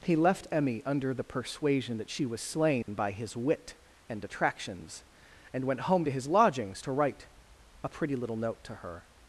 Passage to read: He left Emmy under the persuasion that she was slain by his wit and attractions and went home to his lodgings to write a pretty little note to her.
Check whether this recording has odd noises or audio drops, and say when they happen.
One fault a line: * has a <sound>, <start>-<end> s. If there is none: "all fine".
* has a dropout, 2.8-2.9 s